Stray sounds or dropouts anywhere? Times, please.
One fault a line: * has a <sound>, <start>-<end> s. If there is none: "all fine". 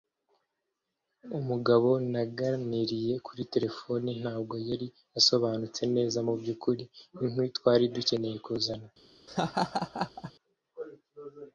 * has a laugh, 9.3-10.3 s